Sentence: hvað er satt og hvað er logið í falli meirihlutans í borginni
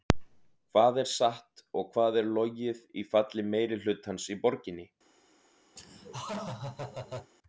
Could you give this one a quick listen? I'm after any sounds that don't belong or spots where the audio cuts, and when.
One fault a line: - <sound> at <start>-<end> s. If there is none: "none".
- laugh at 5.8-7.3 s